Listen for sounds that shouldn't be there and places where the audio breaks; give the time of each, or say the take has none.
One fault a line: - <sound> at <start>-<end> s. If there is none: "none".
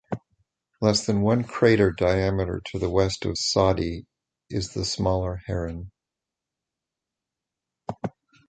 none